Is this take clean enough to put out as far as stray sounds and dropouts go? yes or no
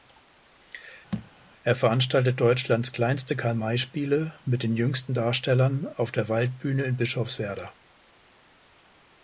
no